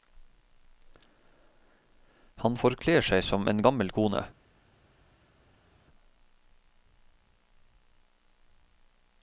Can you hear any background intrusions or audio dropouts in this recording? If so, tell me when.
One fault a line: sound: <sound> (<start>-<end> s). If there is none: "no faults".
no faults